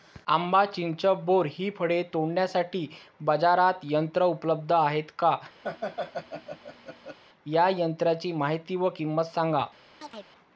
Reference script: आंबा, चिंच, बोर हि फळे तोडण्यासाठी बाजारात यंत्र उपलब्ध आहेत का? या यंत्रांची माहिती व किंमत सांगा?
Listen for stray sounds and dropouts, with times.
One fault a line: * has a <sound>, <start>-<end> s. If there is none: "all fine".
* has a laugh, 5.6-7.2 s
* has a chirp, 10.0-10.3 s